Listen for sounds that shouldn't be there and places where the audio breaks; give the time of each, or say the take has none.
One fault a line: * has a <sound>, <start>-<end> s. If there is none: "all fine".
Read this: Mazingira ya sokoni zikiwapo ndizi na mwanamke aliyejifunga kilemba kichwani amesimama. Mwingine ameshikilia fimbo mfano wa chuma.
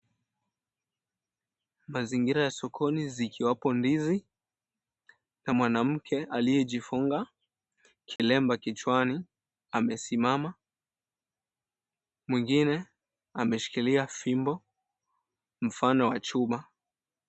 * has a dropout, 8.2-8.2 s